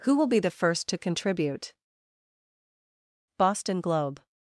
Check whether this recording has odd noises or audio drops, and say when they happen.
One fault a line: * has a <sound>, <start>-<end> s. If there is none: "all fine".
all fine